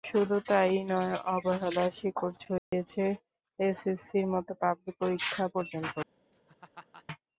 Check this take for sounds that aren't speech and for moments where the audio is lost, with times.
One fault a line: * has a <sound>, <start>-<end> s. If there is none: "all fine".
* has a dropout, 2.6-2.7 s
* has a laugh, 6.3-7.1 s